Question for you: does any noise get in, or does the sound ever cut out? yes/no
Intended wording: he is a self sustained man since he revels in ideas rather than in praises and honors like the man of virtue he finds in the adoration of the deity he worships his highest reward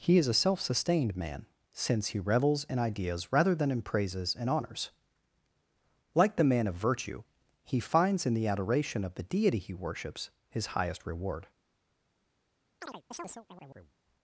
yes